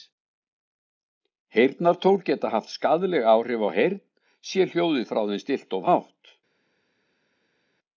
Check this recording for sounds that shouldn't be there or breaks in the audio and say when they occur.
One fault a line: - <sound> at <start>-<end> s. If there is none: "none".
none